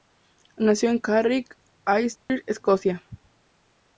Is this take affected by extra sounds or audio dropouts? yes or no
yes